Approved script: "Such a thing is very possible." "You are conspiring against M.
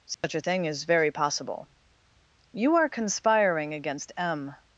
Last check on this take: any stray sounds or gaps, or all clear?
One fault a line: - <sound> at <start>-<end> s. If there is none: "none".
- dropout at 0.1-0.2 s